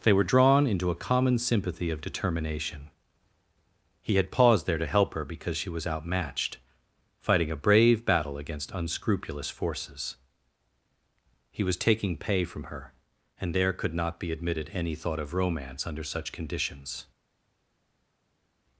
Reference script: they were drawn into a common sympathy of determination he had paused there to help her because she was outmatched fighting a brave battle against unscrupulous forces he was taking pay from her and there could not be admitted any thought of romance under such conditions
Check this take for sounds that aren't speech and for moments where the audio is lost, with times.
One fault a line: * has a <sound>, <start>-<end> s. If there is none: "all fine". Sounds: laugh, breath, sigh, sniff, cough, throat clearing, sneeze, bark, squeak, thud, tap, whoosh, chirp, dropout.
all fine